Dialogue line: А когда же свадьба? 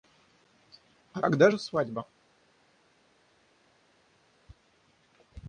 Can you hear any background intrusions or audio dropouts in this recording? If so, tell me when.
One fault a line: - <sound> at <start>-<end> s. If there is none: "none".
none